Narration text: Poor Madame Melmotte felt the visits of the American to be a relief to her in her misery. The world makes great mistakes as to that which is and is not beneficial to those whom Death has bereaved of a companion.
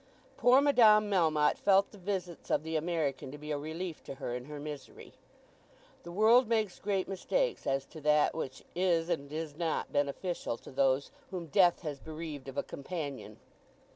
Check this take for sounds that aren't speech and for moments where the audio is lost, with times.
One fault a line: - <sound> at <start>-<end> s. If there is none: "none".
none